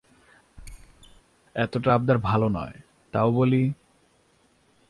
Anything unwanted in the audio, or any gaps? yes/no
yes